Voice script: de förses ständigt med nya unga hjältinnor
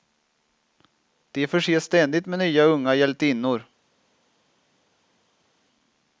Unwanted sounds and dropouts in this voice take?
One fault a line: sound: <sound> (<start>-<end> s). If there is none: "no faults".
no faults